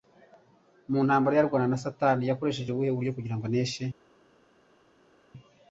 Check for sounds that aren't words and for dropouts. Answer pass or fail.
pass